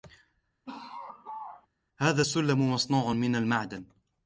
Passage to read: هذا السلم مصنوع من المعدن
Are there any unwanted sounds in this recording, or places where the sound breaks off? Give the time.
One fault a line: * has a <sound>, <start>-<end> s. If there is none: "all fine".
* has a laugh, 0.7-1.7 s